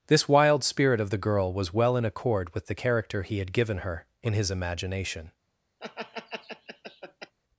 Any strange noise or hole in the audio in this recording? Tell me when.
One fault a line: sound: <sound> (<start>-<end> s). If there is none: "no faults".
sound: laugh (5.8-7.3 s)